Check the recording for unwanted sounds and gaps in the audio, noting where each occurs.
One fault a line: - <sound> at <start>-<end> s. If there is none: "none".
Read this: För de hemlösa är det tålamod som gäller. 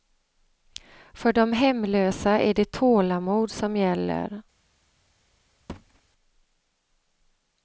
- thud at 5.7-6.0 s